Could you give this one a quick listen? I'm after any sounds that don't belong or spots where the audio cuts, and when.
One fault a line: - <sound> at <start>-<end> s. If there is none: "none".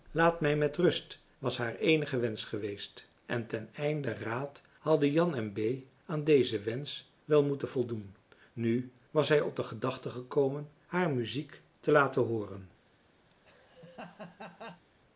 - laugh at 13.3-14.8 s